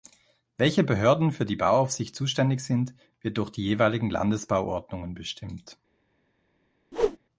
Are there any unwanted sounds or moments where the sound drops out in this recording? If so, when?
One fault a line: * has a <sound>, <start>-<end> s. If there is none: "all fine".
* has a whoosh, 6.9-7.2 s